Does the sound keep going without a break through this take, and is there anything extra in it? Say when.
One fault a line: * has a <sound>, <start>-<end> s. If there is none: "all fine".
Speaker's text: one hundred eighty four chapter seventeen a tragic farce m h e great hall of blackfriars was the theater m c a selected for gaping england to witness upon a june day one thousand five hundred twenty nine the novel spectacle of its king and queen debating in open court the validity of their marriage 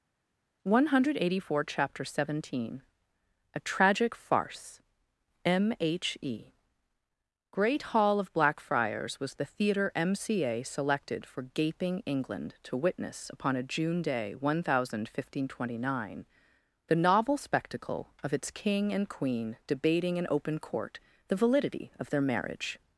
all fine